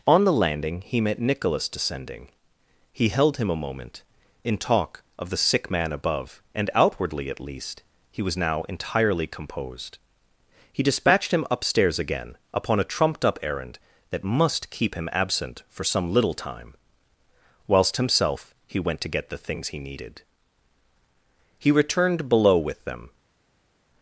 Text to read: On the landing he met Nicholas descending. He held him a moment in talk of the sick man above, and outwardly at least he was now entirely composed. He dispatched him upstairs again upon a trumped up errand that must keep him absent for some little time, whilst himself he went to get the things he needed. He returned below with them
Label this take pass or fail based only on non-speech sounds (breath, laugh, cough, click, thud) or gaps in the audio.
pass